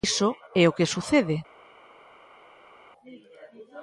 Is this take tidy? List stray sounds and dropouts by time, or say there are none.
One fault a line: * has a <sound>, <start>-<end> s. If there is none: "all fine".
all fine